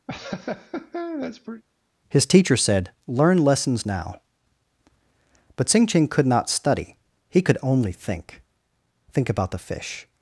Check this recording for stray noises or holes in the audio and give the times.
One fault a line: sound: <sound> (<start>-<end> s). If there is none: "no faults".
sound: laugh (0.1-1.6 s)